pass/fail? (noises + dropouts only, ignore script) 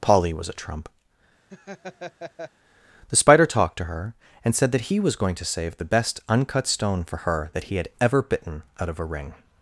fail